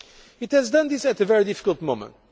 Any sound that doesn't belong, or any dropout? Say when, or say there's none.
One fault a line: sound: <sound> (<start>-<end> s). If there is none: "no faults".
no faults